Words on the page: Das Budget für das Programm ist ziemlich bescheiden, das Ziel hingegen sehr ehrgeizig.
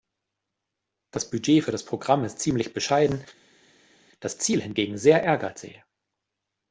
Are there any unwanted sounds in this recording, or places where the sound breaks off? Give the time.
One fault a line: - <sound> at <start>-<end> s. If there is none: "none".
none